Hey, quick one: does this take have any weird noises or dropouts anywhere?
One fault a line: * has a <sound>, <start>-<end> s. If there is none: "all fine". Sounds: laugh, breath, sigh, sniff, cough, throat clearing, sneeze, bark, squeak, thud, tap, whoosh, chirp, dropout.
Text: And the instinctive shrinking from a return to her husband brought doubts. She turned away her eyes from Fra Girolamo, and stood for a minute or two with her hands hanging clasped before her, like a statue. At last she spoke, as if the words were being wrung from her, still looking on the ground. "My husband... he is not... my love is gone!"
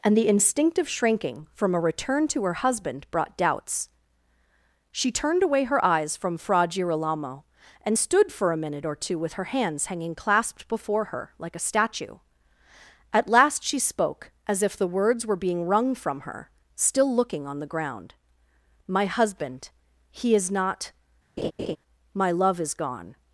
* has a laugh, 21.4-21.8 s